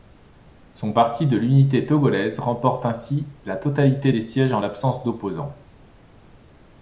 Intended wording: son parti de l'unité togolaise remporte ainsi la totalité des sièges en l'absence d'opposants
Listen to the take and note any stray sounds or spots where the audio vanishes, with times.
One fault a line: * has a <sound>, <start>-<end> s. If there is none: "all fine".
all fine